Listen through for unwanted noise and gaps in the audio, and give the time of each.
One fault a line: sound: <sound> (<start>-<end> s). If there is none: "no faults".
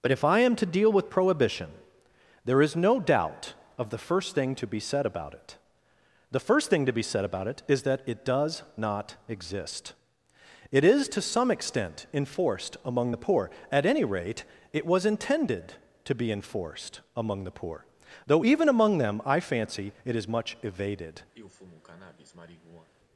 sound: sniff (21.3-22.9 s)